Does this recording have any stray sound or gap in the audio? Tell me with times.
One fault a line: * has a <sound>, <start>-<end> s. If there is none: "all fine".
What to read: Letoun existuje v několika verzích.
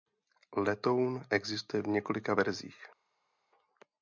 all fine